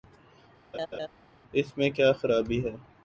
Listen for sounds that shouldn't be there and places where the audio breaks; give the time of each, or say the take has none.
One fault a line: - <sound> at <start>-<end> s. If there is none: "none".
- laugh at 0.7-1.1 s